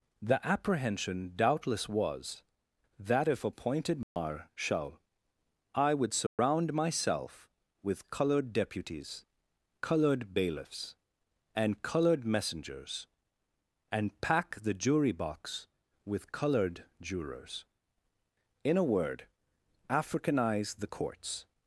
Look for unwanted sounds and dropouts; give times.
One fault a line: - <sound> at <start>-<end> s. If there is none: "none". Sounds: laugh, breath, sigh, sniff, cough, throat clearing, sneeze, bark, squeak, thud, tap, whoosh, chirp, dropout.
- dropout at 4.0-4.2 s
- dropout at 6.3-6.4 s